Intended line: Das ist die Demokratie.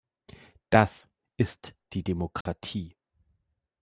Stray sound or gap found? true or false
true